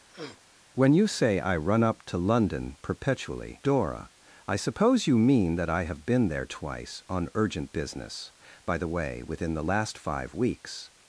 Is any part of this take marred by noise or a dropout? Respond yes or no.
yes